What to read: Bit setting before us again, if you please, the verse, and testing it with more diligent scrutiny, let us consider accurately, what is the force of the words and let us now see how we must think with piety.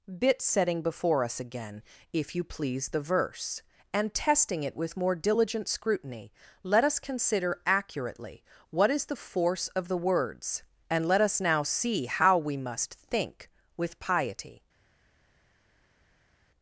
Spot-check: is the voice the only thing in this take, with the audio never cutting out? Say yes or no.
yes